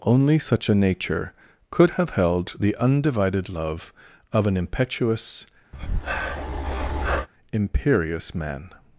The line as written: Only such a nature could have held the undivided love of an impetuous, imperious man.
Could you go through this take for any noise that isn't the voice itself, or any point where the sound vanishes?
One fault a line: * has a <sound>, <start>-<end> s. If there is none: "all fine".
* has a breath, 5.7-7.3 s